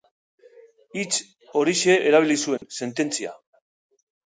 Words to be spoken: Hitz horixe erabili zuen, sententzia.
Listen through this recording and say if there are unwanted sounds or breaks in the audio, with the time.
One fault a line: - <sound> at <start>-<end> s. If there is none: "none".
- dropout at 2.6-2.6 s